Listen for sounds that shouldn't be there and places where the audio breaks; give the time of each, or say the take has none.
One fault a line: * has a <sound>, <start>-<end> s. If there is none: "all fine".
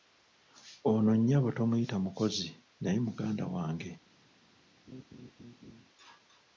* has a laugh, 4.9-5.9 s